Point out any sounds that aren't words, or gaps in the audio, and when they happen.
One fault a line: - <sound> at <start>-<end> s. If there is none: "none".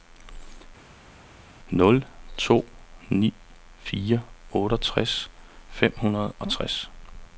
none